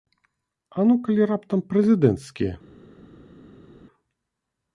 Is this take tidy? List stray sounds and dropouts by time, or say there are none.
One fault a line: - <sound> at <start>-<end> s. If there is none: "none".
none